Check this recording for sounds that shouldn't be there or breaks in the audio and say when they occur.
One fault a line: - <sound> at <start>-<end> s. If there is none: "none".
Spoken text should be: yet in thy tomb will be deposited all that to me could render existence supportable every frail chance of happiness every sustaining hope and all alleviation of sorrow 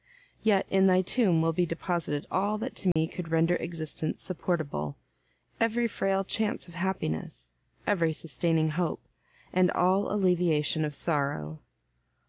- dropout at 2.9-3.0 s